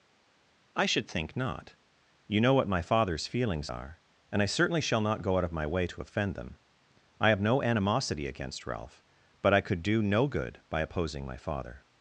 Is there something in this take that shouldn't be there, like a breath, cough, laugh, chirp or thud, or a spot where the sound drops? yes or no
no